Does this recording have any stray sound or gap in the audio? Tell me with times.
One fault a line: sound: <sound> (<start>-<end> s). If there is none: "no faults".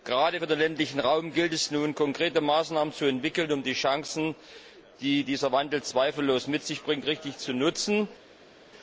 no faults